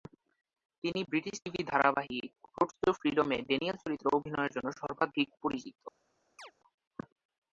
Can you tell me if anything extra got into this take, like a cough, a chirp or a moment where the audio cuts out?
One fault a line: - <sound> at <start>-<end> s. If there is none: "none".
- chirp at 6.4-6.5 s